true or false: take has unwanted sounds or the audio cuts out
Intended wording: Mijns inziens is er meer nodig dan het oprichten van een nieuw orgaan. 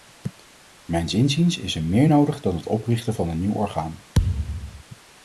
true